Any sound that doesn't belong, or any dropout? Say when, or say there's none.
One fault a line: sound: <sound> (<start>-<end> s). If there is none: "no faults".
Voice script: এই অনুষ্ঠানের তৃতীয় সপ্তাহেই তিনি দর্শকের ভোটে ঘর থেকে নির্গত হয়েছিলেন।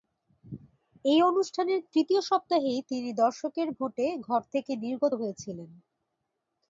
no faults